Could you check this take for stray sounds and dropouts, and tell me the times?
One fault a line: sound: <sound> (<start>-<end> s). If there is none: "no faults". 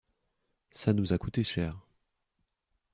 no faults